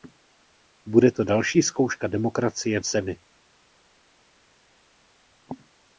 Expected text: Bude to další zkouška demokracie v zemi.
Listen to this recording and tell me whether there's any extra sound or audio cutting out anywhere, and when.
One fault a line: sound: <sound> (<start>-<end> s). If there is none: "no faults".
no faults